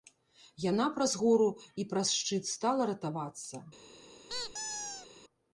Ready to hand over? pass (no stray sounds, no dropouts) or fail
fail